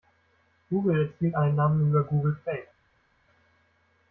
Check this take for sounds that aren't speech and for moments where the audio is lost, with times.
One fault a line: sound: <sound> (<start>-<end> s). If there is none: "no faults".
no faults